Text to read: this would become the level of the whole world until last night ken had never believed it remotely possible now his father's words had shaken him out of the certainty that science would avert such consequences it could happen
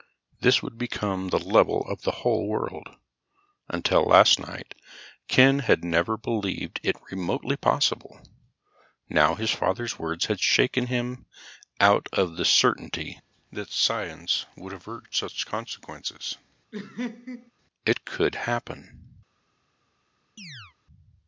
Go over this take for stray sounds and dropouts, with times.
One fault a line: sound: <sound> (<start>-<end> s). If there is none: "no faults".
sound: laugh (16.7-17.5 s)
sound: chirp (20.4-20.8 s)